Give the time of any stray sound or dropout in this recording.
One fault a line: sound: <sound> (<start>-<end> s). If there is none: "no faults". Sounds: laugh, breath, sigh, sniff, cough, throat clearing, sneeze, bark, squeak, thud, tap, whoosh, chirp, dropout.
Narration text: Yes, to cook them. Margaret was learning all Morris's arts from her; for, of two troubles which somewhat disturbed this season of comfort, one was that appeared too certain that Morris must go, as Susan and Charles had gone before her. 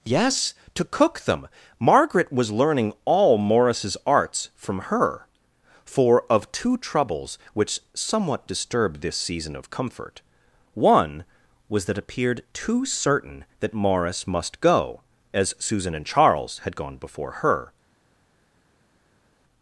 no faults